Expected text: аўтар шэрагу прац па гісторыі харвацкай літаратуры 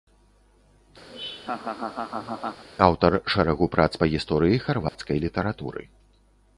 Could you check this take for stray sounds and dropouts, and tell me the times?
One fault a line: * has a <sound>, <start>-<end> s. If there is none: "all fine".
* has a laugh, 1.1-2.6 s
* has a dropout, 4.9-5.0 s